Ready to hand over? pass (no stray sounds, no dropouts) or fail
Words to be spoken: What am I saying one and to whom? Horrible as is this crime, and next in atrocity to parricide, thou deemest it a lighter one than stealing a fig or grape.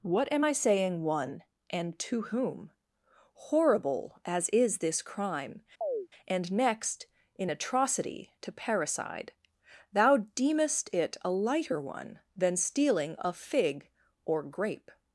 fail